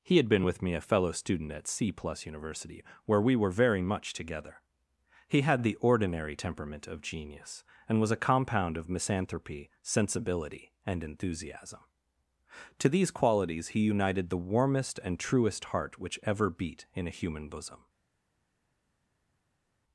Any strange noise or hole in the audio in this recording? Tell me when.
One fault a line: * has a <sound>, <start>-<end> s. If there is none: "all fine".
all fine